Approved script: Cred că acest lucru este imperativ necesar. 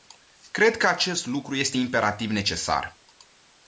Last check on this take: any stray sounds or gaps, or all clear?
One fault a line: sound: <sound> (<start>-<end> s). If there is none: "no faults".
no faults